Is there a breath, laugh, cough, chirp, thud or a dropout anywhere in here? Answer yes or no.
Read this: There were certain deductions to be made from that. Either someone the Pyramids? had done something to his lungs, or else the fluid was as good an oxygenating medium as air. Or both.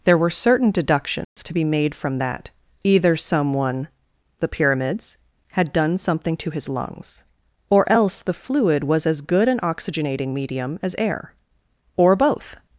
yes